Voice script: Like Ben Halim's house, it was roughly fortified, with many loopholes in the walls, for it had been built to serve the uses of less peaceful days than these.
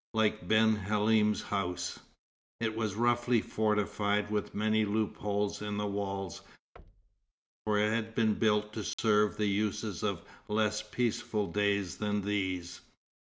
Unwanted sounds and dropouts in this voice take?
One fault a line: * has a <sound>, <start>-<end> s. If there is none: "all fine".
* has a thud, 6.8-7.3 s
* has a dropout, 8.9-9.0 s